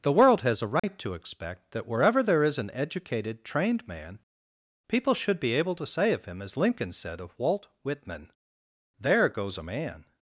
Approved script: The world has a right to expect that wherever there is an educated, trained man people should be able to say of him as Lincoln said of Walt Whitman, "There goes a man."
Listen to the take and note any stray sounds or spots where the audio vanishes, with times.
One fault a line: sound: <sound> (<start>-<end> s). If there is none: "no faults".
sound: dropout (0.8-0.8 s)